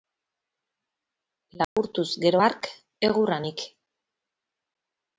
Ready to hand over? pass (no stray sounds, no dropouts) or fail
fail